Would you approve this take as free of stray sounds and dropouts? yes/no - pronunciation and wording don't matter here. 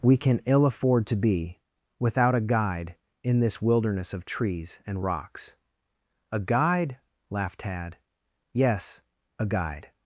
yes